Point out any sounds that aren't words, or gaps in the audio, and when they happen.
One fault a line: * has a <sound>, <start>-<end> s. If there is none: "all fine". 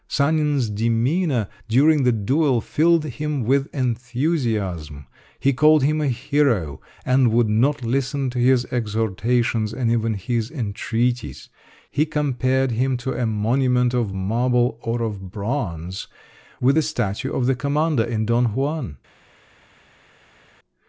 all fine